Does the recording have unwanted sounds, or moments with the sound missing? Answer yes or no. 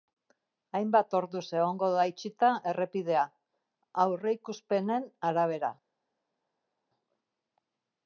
no